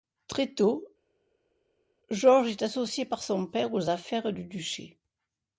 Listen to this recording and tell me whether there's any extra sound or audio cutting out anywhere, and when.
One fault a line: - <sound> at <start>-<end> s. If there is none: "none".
none